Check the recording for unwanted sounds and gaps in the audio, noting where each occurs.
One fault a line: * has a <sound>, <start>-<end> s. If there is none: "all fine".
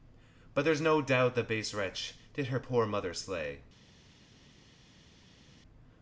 all fine